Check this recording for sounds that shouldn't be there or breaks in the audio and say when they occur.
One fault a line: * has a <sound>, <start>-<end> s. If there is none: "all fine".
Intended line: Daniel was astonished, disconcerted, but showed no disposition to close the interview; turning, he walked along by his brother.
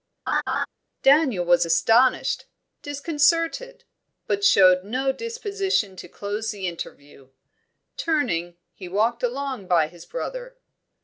* has a laugh, 0.3-0.7 s